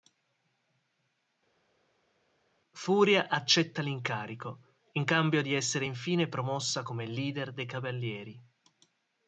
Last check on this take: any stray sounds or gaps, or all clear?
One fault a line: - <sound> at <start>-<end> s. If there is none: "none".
none